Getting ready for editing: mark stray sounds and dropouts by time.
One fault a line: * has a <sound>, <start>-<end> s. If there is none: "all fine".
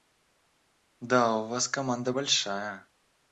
all fine